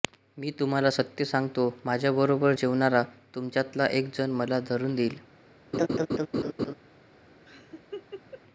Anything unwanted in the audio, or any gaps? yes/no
yes